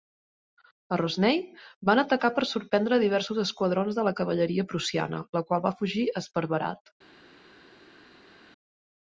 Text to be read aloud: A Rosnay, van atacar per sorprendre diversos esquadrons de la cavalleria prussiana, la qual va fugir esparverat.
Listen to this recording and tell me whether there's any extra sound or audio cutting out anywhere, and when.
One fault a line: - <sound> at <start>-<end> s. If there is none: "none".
none